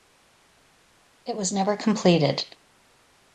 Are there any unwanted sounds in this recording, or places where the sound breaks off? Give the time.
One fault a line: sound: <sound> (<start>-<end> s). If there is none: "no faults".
no faults